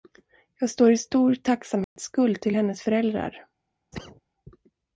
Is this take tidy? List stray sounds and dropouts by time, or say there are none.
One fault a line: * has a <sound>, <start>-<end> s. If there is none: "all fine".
* has a dropout, 1.8-2.0 s
* has a cough, 3.9-4.2 s